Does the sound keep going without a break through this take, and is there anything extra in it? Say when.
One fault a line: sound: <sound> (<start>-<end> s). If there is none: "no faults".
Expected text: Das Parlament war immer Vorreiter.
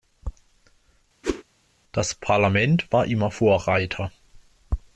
sound: whoosh (1.2-1.4 s)